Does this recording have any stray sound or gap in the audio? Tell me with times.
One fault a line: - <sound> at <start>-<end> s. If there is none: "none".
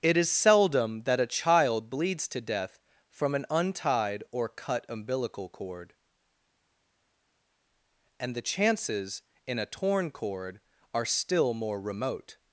none